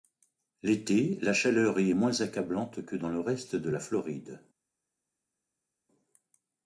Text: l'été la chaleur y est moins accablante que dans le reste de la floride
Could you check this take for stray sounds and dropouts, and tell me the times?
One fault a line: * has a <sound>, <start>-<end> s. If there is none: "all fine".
all fine